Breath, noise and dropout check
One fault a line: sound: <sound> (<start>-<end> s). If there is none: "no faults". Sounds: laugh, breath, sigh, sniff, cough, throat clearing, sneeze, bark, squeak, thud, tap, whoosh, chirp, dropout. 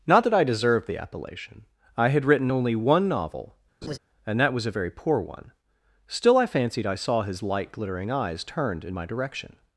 sound: laugh (3.8-4.0 s)